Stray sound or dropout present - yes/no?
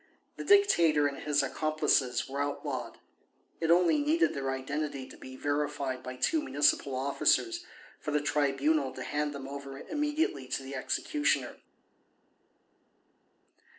no